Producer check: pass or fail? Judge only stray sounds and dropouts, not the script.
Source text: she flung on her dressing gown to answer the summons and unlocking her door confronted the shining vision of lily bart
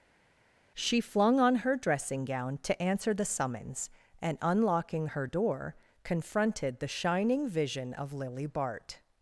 pass